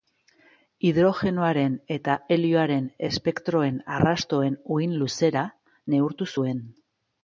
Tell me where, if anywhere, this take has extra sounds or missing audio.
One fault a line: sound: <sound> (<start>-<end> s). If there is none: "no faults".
no faults